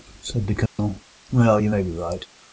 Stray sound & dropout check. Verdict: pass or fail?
fail